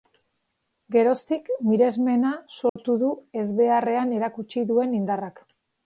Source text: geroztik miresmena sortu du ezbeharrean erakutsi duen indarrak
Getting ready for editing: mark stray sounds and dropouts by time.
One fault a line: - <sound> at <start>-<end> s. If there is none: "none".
- dropout at 2.7-2.8 s